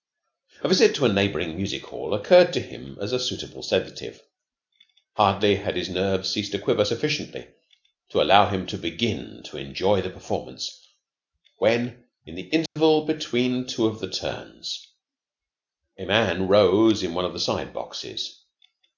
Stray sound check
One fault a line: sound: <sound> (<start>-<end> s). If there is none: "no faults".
sound: dropout (12.7-12.8 s)